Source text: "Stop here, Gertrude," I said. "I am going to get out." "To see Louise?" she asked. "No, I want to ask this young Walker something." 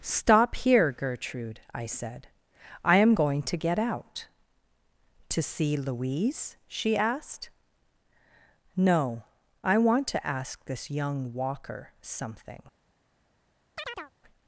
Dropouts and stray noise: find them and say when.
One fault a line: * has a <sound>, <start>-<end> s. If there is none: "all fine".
* has a chirp, 13.8-14.1 s